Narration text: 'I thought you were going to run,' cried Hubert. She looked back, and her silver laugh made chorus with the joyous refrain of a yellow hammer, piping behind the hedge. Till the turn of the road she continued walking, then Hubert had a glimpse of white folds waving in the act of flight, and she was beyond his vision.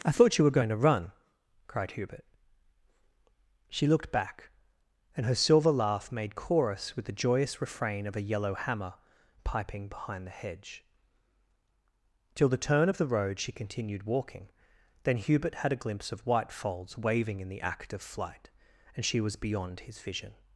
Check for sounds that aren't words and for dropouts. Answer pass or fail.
pass